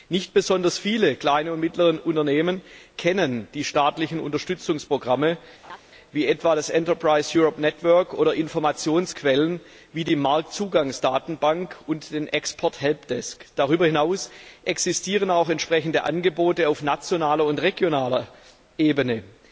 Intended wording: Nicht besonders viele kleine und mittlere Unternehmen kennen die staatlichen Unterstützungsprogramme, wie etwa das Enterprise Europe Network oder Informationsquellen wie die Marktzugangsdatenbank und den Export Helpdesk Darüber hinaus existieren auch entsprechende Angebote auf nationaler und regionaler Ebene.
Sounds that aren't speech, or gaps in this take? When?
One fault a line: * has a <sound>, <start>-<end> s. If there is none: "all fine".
* has a laugh, 5.6-5.8 s